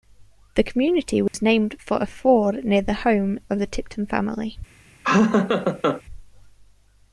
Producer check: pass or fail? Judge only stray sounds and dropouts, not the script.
fail